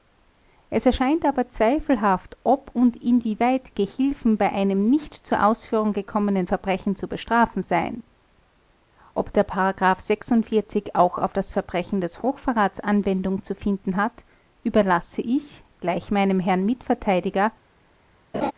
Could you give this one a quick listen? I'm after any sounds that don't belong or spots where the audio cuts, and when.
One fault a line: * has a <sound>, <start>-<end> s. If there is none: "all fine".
* has a laugh, 18.3-18.5 s